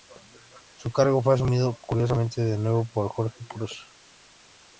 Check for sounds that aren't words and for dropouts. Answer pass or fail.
pass